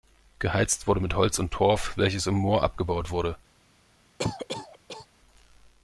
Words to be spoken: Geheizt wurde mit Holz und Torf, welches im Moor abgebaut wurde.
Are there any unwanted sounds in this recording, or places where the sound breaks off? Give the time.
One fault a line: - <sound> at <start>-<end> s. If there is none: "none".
- cough at 4.2-5.1 s